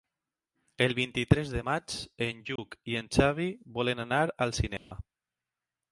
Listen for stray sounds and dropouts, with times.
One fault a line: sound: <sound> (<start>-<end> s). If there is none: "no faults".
sound: dropout (2.6-2.6 s)
sound: dropout (4.8-4.9 s)